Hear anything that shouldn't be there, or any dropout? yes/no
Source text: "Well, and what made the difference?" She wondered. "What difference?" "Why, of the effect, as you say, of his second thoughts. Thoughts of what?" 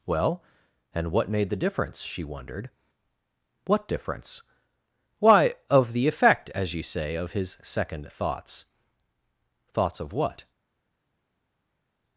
no